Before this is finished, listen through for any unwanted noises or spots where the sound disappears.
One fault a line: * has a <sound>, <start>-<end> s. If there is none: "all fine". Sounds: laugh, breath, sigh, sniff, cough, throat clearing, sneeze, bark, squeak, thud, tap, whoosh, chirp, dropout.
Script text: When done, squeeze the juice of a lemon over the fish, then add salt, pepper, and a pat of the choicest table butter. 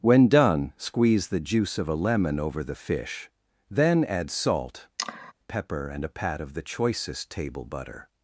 * has a sigh, 5.0-5.3 s